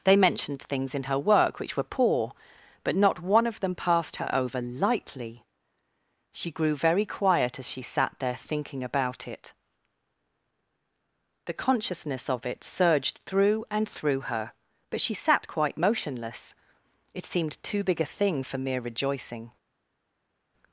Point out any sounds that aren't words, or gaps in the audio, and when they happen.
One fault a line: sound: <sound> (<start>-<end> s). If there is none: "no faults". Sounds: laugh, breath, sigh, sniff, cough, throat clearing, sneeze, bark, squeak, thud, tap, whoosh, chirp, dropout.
no faults